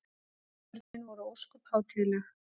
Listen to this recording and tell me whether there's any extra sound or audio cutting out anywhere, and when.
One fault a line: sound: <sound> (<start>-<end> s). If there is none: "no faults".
sound: dropout (0.8-0.9 s)